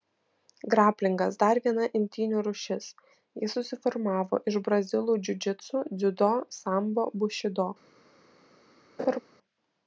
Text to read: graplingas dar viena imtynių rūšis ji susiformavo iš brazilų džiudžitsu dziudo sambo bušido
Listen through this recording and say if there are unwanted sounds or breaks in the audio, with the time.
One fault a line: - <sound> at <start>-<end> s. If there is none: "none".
- laugh at 9.0-9.2 s